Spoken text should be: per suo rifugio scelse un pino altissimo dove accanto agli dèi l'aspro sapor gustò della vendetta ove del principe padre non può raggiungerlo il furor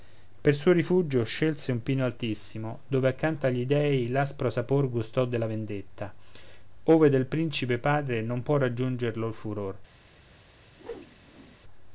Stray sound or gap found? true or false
true